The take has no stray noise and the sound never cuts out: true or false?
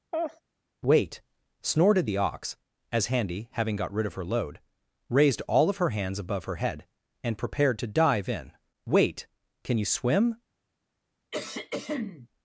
false